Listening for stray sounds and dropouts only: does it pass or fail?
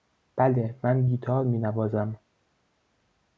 pass